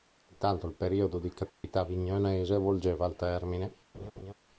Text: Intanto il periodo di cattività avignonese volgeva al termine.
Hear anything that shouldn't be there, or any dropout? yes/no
yes